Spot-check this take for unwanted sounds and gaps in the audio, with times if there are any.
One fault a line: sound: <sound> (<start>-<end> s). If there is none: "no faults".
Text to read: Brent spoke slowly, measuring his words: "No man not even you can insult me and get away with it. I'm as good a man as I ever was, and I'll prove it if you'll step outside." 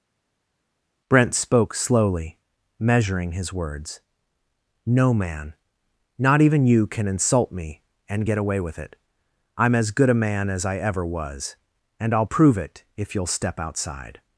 no faults